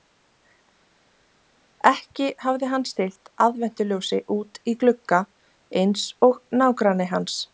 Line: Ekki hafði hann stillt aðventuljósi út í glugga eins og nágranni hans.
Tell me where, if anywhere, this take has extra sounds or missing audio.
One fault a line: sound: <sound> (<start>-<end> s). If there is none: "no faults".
no faults